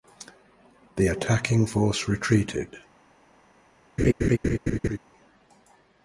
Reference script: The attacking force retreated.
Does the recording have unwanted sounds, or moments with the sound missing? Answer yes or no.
yes